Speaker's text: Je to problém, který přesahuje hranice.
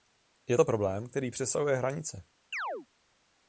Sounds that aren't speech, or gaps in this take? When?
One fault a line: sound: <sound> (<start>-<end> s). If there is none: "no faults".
sound: chirp (2.5-2.9 s)